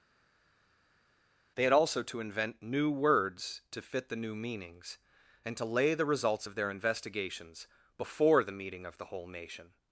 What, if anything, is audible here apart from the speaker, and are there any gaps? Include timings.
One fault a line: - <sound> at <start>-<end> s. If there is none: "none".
none